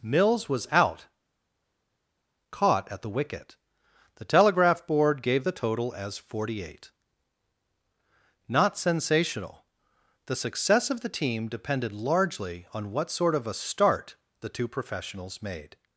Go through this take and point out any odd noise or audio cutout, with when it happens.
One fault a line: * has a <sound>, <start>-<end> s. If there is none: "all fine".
all fine